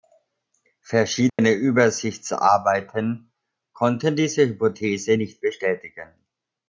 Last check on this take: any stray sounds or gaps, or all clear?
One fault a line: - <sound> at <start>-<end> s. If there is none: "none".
- dropout at 1.3-1.4 s